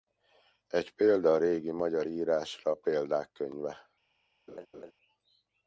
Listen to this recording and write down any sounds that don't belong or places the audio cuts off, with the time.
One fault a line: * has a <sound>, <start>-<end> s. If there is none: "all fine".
* has a laugh, 4.5-4.9 s